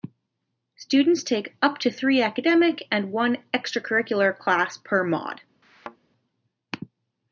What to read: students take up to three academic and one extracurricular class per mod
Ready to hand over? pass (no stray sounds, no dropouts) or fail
fail